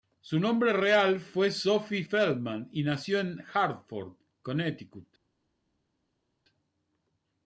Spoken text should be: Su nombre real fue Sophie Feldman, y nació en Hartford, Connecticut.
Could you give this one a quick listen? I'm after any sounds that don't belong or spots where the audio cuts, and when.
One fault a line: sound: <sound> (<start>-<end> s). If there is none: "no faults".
no faults